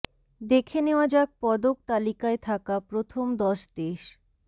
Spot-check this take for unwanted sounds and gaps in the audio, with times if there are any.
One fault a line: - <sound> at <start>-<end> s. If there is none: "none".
none